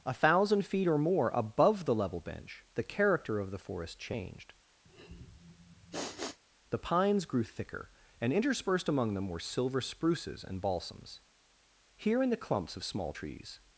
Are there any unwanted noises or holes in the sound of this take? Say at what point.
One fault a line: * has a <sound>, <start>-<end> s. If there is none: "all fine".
* has a sniff, 4.9-6.4 s